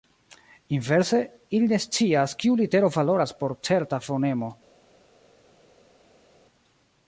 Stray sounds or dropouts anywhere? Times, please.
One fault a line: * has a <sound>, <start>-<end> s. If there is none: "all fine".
all fine